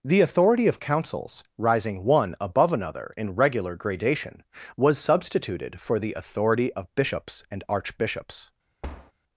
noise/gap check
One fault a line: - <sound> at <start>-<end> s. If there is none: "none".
- thud at 8.8-9.1 s